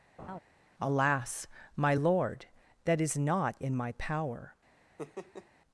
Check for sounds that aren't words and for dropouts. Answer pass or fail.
fail